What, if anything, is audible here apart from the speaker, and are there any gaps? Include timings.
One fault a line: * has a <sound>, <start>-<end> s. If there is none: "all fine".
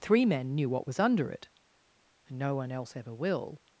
all fine